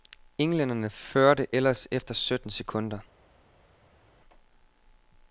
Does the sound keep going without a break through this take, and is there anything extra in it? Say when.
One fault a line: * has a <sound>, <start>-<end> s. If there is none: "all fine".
all fine